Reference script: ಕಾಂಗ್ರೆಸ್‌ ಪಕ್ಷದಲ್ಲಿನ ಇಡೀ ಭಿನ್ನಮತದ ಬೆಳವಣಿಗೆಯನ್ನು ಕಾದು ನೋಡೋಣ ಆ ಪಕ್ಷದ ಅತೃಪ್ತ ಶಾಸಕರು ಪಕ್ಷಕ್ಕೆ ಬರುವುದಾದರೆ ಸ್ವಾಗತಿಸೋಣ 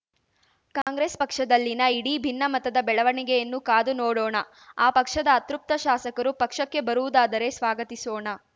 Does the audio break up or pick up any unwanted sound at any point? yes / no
yes